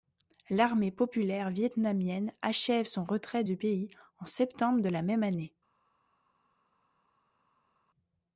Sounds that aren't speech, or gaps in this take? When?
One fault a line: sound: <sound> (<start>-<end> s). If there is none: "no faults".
no faults